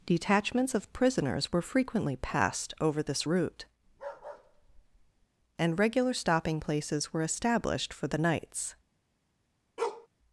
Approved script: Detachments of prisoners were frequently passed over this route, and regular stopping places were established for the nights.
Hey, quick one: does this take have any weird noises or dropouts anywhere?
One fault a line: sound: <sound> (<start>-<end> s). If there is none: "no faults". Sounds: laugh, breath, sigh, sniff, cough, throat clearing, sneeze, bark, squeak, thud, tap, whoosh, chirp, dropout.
sound: bark (3.9-5.3 s)
sound: bark (9.8-10.1 s)